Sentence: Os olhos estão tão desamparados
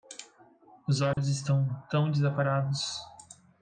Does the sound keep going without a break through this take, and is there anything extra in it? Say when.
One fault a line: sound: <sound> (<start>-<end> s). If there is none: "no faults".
sound: dropout (1.1-1.2 s)